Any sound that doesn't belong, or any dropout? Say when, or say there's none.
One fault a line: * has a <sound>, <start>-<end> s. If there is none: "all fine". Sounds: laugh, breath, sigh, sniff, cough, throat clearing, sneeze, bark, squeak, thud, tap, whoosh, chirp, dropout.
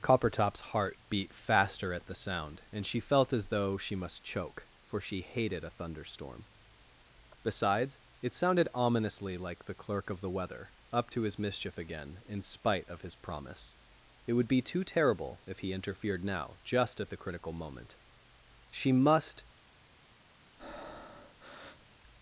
* has a breath, 20.6-21.9 s